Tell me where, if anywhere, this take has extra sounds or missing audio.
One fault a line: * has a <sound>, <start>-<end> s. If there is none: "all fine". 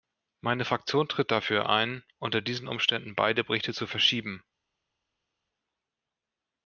all fine